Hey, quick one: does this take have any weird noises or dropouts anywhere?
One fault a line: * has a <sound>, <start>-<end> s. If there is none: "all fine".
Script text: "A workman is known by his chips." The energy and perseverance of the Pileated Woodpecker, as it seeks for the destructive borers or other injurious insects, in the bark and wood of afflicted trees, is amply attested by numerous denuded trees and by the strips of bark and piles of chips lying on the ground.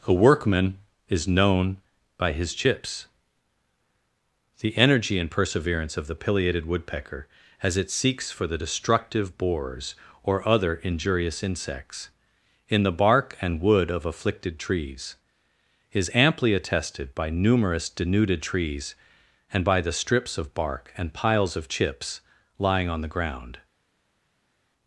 all fine